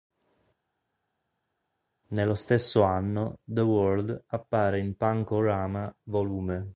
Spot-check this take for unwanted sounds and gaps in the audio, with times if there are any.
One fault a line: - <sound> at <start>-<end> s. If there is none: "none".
none